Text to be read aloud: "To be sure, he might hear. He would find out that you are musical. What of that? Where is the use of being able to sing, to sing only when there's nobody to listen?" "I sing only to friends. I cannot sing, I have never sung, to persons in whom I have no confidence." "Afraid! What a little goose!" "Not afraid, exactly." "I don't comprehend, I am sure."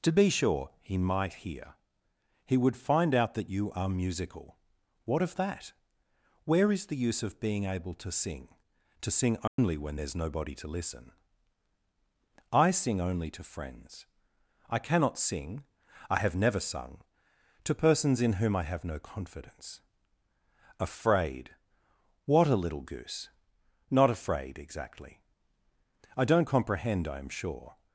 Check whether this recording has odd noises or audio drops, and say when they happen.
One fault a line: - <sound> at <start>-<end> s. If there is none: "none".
- dropout at 9.5-9.6 s